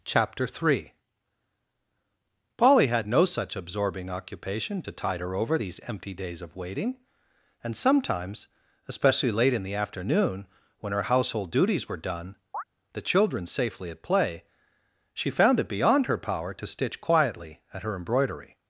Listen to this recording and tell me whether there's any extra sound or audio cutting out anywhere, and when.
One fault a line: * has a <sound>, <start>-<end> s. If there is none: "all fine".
* has a chirp, 12.5-12.6 s